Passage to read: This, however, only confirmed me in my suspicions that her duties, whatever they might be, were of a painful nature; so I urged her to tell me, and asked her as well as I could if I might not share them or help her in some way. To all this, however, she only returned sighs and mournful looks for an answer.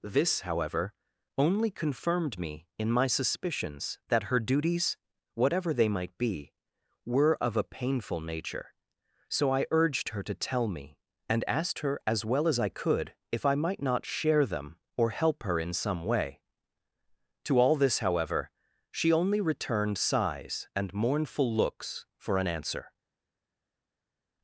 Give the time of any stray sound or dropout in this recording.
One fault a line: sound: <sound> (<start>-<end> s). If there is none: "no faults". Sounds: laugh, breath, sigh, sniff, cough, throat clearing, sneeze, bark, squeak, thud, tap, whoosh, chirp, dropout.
no faults